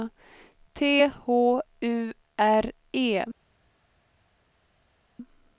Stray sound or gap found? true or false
false